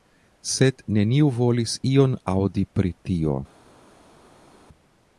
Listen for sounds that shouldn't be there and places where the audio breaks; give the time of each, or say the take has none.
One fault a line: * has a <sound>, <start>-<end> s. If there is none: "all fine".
all fine